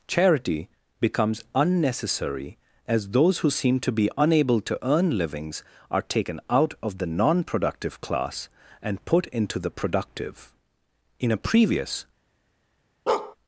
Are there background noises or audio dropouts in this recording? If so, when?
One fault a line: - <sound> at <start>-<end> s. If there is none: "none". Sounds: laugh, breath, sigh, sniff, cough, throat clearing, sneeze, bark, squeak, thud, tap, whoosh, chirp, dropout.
- bark at 13.1-13.4 s